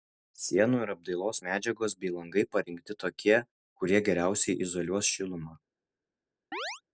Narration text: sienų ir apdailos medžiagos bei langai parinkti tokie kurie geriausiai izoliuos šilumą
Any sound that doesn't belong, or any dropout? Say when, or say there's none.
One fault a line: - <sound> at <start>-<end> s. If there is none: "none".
- chirp at 6.5-6.8 s